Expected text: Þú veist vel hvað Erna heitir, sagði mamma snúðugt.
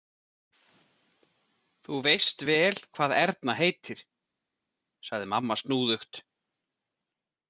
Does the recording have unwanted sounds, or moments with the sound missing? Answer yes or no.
no